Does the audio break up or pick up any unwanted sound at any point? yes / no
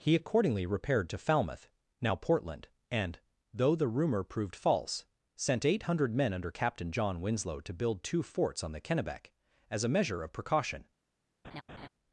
yes